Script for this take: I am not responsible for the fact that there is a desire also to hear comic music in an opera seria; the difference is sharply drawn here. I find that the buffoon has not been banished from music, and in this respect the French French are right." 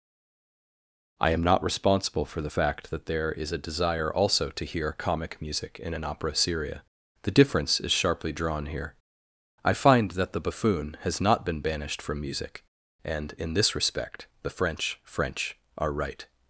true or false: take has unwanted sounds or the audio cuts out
false